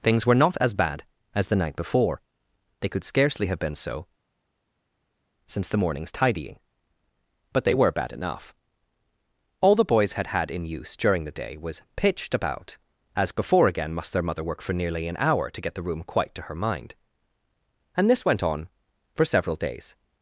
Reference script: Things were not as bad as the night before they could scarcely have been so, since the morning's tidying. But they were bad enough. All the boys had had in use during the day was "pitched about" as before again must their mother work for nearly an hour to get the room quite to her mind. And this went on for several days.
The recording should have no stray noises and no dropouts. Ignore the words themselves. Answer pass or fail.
pass